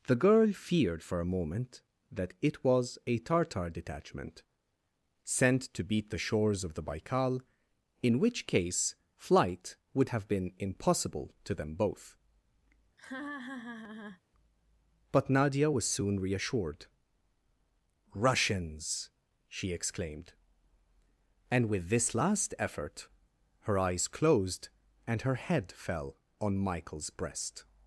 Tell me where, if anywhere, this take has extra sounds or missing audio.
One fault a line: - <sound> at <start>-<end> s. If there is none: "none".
- laugh at 13.0-14.2 s